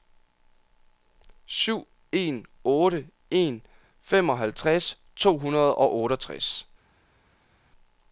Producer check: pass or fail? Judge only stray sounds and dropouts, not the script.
pass